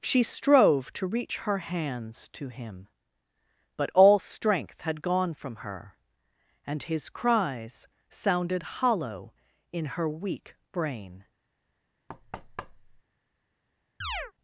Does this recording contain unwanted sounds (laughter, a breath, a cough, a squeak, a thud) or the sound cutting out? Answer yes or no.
yes